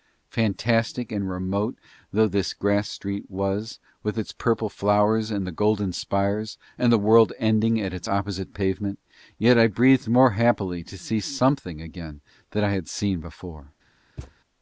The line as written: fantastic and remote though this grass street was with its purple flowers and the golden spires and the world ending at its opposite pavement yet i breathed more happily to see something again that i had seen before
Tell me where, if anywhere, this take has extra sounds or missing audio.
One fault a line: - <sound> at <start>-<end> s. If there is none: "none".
- thud at 14.2-14.4 s